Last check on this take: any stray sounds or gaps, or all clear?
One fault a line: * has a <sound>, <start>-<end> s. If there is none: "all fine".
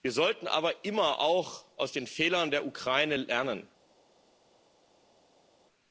all fine